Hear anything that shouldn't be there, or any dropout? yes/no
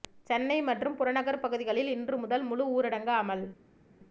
no